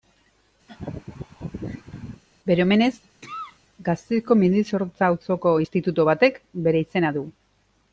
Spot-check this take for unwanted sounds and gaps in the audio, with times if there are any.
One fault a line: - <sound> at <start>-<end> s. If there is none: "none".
- laugh at 0.7-2.2 s
- cough at 3.2-3.6 s